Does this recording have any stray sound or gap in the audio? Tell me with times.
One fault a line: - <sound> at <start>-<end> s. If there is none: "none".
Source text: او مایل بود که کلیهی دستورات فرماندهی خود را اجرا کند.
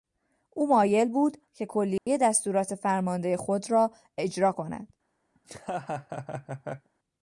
- dropout at 2.0-2.1 s
- laugh at 5.4-6.9 s